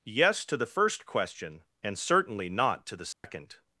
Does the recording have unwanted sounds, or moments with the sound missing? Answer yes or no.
yes